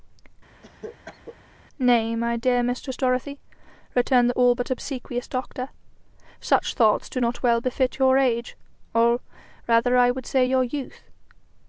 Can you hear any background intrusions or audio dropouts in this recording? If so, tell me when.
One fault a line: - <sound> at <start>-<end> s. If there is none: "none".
- cough at 0.6-1.4 s